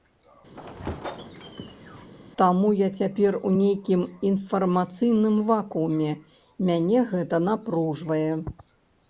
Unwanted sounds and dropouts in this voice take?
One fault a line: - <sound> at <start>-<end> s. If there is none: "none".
- squeak at 0.5-2.1 s